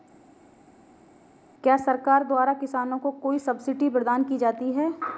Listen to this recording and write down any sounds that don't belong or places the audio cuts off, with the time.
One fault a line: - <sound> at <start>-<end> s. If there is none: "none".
none